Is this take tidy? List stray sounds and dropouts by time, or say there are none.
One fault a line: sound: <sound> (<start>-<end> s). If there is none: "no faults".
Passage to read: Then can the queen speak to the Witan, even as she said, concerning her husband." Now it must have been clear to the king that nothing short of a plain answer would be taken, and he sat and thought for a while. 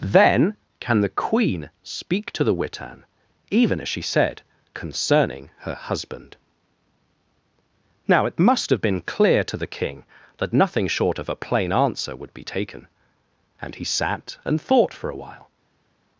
no faults